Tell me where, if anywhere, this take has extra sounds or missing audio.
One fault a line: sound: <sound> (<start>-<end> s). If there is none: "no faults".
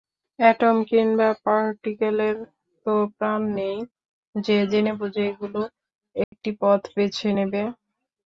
sound: dropout (6.2-6.3 s)